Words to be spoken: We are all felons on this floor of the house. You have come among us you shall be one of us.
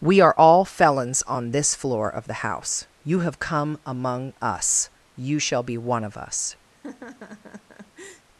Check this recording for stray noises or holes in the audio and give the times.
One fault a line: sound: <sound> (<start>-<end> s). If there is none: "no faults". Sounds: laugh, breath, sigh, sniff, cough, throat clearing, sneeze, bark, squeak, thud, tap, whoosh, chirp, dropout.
sound: laugh (6.7-8.3 s)